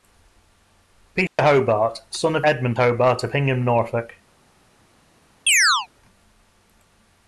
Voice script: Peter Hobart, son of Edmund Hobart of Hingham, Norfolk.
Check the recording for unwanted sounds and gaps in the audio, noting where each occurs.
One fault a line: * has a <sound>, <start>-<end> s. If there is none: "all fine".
* has a dropout, 1.3-1.4 s
* has a chirp, 5.5-5.9 s